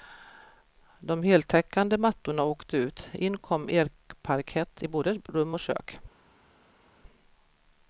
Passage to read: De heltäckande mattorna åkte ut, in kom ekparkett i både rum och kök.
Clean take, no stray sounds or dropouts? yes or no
yes